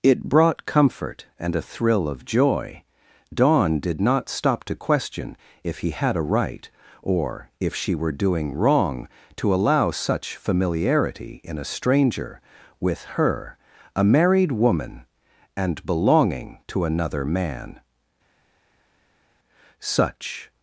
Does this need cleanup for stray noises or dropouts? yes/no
no